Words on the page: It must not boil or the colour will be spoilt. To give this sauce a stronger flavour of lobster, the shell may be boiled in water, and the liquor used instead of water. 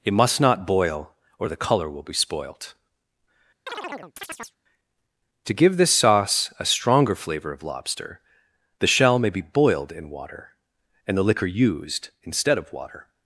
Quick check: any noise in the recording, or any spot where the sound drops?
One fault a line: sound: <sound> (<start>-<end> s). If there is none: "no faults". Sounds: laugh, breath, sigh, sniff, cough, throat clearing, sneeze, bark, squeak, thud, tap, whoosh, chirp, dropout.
sound: chirp (3.7-4.6 s)